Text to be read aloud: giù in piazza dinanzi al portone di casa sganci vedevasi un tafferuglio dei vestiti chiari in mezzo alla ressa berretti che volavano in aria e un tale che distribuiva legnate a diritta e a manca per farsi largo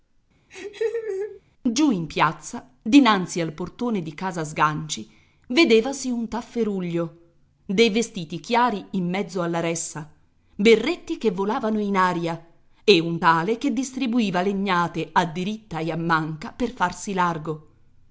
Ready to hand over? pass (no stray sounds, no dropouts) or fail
fail